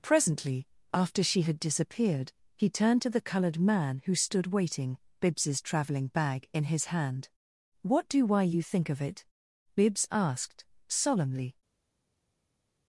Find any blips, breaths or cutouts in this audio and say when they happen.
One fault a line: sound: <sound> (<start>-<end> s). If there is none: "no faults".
no faults